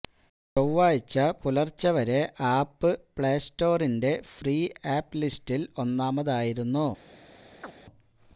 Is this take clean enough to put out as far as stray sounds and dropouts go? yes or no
no